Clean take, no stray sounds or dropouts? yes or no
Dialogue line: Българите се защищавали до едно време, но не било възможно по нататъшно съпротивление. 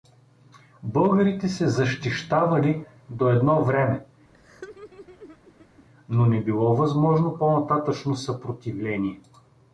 no